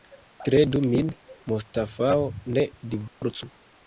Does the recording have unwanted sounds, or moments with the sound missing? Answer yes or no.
yes